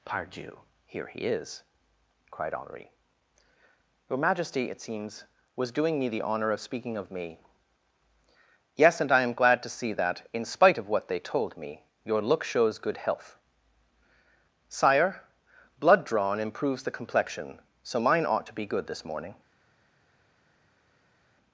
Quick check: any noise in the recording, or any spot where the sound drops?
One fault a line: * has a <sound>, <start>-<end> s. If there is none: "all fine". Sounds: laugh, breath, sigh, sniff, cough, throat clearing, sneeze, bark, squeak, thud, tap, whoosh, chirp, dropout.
all fine